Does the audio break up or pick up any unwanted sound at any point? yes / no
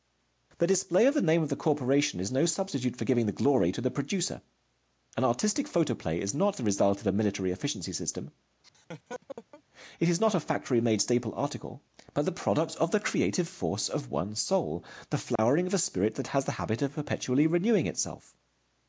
yes